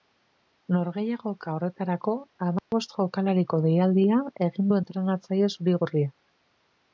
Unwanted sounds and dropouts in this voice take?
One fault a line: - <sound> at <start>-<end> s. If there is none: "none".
- dropout at 2.6-2.7 s